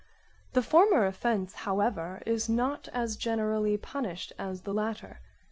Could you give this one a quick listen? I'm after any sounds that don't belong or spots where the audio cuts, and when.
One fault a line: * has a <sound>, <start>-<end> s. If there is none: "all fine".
all fine